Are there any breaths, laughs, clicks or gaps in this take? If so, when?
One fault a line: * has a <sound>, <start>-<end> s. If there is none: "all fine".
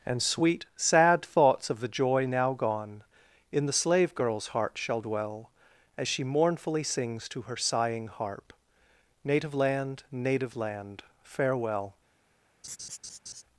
* has a laugh, 12.6-13.4 s